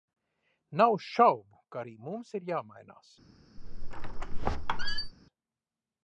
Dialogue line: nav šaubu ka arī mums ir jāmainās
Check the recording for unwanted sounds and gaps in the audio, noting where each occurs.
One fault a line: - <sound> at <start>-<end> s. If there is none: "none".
- squeak at 3.6-5.1 s